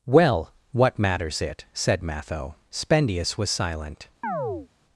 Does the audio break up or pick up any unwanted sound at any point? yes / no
yes